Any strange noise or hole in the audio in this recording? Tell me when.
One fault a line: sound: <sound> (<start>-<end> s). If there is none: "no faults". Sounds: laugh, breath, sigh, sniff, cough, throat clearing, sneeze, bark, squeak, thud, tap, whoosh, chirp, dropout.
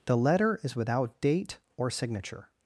no faults